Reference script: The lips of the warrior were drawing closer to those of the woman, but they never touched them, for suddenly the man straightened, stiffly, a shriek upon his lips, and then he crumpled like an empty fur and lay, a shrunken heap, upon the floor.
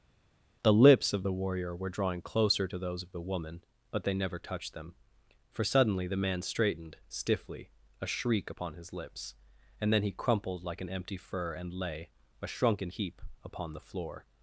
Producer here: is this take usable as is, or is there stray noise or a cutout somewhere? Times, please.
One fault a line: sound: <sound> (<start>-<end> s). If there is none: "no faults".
no faults